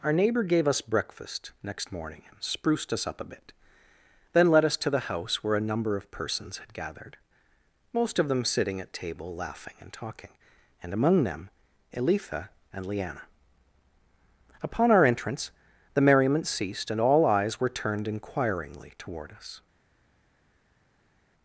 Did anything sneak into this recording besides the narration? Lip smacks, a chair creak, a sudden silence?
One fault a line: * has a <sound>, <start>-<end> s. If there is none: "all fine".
all fine